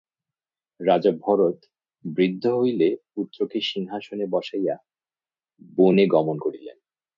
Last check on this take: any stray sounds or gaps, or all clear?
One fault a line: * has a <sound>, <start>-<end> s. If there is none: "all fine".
all fine